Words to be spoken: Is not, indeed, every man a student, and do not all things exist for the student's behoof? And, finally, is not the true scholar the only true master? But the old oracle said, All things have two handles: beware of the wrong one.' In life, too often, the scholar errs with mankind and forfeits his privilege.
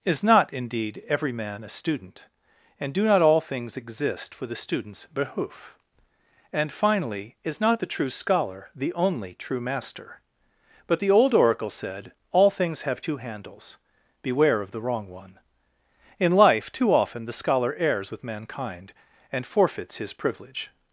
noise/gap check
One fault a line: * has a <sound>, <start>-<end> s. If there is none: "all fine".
all fine